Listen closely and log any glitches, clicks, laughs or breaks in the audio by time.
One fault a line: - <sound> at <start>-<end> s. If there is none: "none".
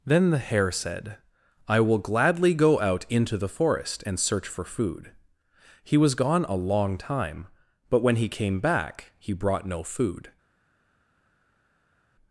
none